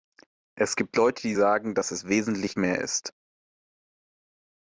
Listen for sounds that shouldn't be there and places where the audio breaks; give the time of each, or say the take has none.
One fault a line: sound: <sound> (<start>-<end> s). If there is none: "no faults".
no faults